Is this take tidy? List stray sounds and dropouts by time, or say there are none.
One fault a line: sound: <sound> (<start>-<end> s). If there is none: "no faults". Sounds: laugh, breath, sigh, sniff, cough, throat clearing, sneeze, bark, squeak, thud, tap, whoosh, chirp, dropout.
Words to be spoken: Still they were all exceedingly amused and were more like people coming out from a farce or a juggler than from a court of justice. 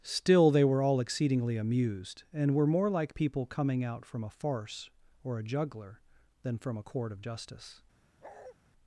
sound: bark (8.2-8.6 s)